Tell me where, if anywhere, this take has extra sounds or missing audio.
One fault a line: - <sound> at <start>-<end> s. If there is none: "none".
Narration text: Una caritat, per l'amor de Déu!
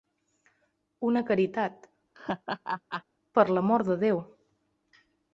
- laugh at 2.1-3.0 s